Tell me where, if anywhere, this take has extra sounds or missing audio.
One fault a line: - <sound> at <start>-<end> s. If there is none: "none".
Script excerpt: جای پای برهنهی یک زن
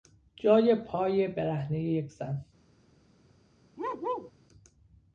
- bark at 3.8-4.3 s